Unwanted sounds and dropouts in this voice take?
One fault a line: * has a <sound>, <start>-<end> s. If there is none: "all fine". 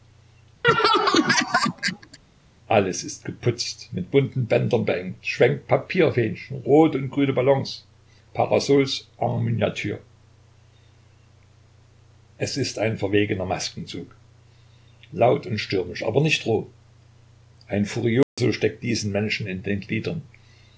* has a laugh, 0.6-2.2 s
* has a dropout, 18.2-18.4 s